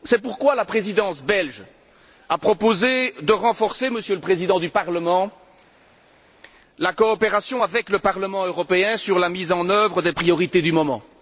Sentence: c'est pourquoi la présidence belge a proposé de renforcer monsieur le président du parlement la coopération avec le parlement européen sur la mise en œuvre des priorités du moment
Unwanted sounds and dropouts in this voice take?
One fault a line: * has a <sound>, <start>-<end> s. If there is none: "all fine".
all fine